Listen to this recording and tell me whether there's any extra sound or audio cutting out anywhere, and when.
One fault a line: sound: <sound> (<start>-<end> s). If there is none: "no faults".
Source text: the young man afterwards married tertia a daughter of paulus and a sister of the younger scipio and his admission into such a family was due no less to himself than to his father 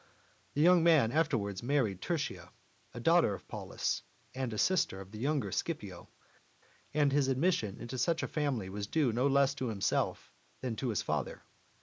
no faults